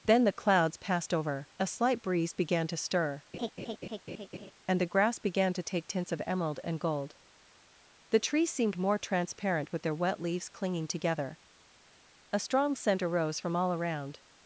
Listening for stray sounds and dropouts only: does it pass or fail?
fail